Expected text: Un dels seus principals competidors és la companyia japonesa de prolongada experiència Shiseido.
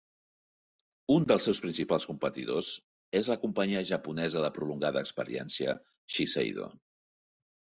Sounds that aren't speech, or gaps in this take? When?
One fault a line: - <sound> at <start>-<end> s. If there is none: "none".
none